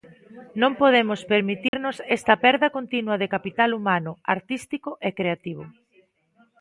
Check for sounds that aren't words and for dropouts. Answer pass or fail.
fail